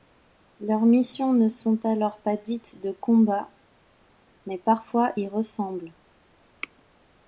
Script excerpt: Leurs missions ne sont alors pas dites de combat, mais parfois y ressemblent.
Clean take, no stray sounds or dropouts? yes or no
yes